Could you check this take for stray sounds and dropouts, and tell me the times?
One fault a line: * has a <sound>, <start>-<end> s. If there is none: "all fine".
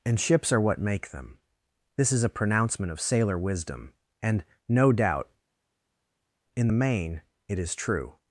all fine